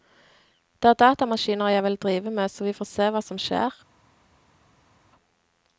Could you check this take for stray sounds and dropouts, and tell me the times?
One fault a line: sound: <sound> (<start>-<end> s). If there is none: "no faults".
no faults